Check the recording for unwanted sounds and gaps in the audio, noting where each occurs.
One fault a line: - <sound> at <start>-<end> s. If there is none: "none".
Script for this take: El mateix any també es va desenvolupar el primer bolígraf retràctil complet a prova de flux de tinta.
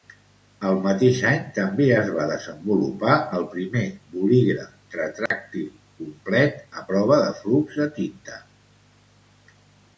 - dropout at 5.3-5.3 s